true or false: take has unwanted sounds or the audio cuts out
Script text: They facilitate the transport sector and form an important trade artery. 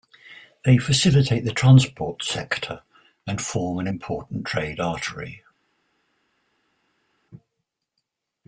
false